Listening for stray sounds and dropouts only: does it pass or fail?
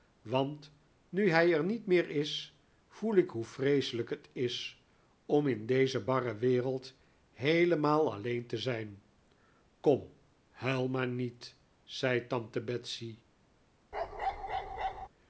fail